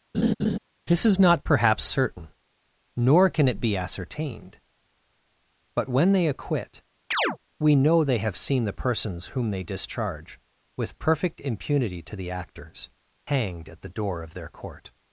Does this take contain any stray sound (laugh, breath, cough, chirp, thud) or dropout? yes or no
yes